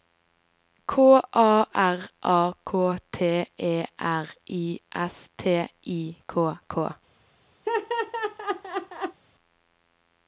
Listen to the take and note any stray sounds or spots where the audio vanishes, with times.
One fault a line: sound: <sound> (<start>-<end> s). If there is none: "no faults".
sound: laugh (7.6-9.2 s)